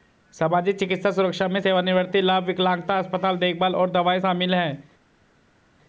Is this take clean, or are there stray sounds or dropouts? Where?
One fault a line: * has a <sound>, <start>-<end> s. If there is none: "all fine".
all fine